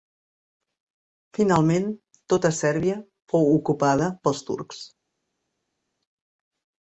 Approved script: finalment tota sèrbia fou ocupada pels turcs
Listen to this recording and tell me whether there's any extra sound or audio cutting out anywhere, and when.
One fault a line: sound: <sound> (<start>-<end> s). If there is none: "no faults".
no faults